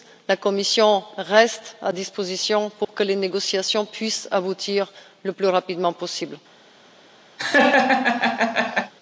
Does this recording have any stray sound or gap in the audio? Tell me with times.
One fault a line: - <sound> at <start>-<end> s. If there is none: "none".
- dropout at 2.8-2.9 s
- laugh at 7.4-8.9 s